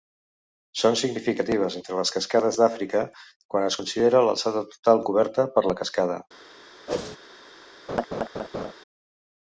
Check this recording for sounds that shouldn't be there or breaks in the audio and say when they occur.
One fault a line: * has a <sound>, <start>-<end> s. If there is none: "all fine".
* has a whoosh, 6.9-7.2 s
* has a laugh, 7.9-8.7 s